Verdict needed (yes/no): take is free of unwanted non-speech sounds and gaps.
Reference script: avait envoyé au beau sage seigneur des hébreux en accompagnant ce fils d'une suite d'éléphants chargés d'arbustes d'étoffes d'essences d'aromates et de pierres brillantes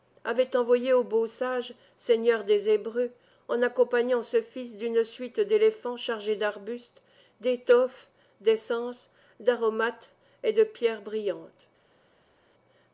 yes